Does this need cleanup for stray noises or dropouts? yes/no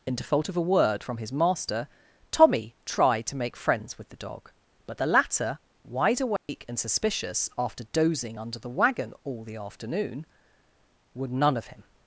yes